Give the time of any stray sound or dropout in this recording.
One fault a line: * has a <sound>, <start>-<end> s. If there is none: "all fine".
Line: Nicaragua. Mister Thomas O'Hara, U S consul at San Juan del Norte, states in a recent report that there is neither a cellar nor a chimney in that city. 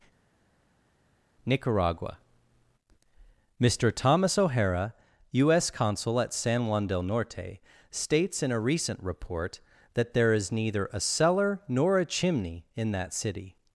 all fine